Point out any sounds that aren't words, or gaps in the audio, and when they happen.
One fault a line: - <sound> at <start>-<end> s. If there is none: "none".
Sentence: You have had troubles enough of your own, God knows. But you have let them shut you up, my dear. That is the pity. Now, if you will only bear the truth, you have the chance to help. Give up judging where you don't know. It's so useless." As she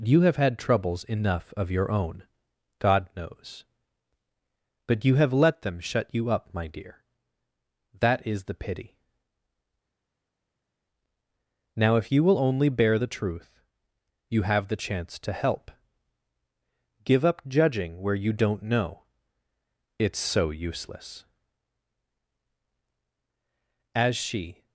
none